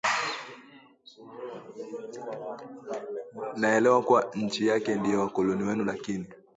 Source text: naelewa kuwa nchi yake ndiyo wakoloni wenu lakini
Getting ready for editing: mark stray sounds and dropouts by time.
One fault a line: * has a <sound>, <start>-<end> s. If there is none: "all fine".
all fine